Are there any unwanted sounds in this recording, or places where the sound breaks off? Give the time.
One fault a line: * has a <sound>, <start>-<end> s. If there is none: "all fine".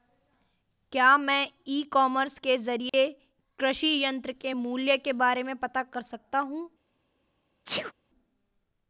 * has a dropout, 2.9-2.9 s
* has a sneeze, 7.7-7.9 s